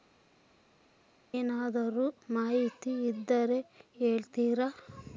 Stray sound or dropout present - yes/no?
no